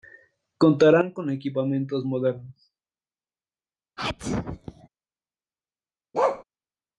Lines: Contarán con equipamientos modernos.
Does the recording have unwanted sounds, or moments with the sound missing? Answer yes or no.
yes